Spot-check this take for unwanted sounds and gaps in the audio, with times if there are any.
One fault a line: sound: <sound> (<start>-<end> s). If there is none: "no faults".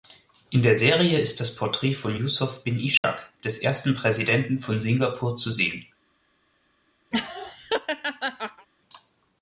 sound: dropout (3.0-3.0 s)
sound: laugh (7.1-8.7 s)